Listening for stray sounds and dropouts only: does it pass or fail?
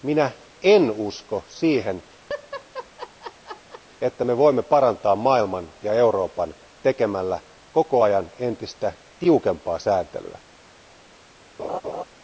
fail